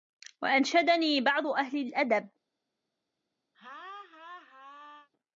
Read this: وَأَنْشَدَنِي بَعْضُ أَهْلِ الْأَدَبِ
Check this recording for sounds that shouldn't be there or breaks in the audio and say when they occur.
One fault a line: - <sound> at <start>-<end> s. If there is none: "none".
- laugh at 3.5-5.1 s